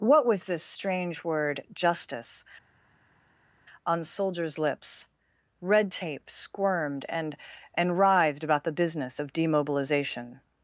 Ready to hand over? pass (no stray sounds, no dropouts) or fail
pass